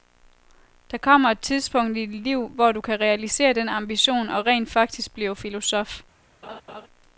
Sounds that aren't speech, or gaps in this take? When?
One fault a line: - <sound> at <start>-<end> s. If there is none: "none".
- laugh at 6.4-6.9 s